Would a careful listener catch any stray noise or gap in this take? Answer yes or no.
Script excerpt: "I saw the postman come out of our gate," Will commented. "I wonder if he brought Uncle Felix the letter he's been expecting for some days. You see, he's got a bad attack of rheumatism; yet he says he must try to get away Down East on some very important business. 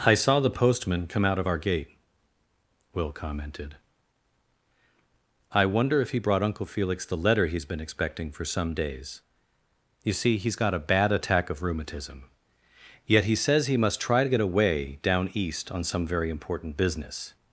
no